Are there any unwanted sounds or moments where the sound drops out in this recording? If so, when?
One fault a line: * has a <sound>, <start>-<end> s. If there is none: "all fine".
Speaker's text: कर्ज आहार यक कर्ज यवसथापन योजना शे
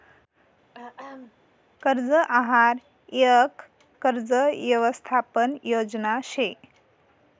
* has a throat clearing, 0.7-1.4 s